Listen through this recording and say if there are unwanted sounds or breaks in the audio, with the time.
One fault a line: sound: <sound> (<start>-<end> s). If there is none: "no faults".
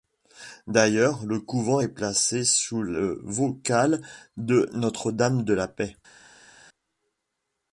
no faults